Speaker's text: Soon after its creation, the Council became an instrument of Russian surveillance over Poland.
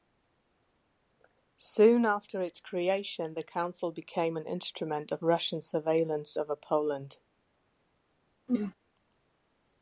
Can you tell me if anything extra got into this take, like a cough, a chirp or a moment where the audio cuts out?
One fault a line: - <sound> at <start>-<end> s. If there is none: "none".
- throat clearing at 8.5-8.7 s